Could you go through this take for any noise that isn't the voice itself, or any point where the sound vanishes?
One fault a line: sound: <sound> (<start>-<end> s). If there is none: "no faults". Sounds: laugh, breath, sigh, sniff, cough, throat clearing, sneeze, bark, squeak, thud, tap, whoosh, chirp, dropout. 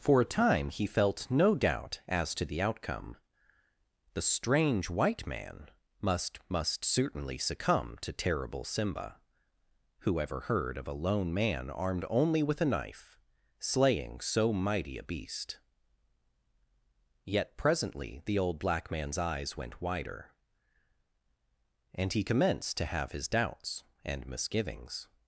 no faults